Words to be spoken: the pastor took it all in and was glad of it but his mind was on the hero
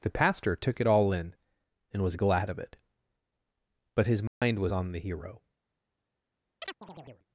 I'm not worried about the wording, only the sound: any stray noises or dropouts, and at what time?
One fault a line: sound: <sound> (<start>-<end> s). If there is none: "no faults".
sound: dropout (4.3-4.4 s)
sound: chirp (6.6-7.3 s)